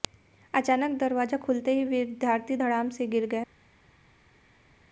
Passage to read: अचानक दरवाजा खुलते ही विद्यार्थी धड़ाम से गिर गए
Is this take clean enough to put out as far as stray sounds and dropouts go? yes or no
yes